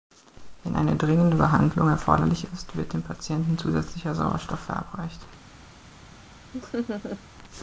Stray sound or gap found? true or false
true